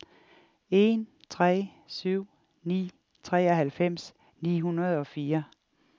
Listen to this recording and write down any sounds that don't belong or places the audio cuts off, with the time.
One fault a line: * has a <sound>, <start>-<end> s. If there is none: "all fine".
all fine